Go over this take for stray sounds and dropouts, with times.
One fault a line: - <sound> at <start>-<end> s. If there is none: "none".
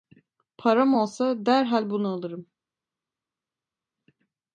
none